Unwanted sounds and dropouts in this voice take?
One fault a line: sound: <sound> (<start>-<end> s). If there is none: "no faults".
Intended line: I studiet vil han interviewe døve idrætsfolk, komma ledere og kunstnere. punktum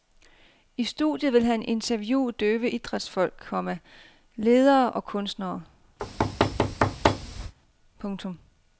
sound: thud (6.0-7.5 s)